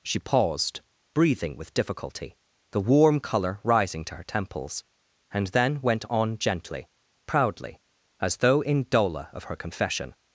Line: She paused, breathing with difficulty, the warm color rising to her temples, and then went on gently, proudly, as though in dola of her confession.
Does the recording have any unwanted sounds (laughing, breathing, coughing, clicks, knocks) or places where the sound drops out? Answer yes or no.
no